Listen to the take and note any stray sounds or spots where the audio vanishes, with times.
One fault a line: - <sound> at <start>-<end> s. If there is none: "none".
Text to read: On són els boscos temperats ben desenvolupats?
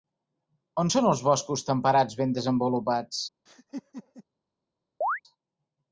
- laugh at 3.5-4.2 s
- chirp at 5.0-5.2 s